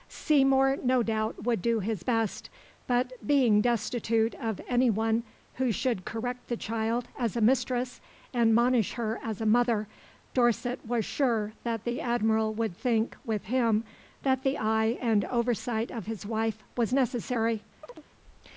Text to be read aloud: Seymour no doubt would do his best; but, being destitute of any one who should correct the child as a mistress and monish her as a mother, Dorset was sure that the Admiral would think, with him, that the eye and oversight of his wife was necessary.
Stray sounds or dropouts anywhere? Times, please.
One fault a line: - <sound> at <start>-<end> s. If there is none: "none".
- chirp at 17.8-18.1 s